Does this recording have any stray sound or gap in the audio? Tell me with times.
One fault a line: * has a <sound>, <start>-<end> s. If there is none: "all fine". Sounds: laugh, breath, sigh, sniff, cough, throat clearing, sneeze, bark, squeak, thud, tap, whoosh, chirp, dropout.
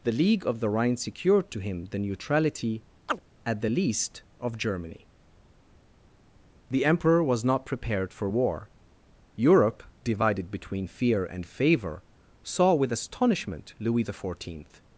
* has a chirp, 3.1-3.2 s